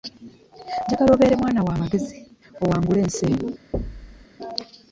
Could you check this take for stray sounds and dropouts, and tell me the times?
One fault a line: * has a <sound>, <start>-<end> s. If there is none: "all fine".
* has a thud, 3.7-4.3 s